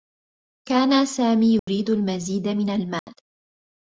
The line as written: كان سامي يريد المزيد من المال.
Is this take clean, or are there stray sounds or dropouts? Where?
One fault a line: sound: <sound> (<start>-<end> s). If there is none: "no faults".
sound: dropout (1.6-1.7 s)
sound: dropout (3.0-3.1 s)